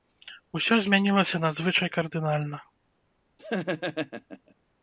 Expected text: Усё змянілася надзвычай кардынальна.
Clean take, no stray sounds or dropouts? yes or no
no